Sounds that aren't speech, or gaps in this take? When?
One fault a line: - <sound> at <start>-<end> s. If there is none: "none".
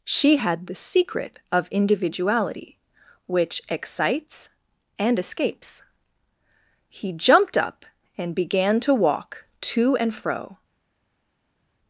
none